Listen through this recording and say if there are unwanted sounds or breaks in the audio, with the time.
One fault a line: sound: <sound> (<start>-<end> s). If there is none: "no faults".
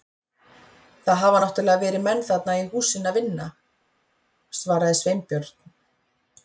no faults